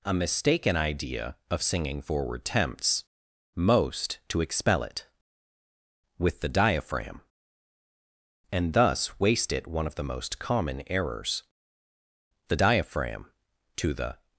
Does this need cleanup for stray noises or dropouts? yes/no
no